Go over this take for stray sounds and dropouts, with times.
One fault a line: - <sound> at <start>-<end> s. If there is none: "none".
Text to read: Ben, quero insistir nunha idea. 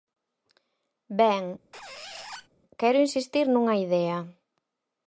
- squeak at 1.7-2.5 s